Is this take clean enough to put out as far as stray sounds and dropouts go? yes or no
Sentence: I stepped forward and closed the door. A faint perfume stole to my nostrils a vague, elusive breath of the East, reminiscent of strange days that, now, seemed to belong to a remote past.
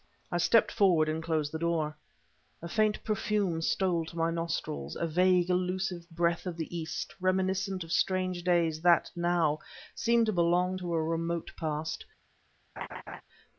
no